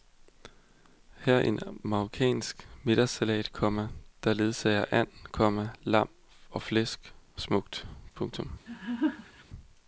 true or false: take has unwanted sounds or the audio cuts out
true